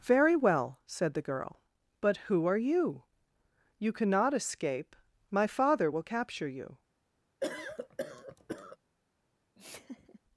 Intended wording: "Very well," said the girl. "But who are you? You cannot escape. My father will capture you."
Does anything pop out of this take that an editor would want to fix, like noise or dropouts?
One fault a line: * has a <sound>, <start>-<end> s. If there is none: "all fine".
* has a cough, 7.4-8.8 s
* has a laugh, 9.5-10.2 s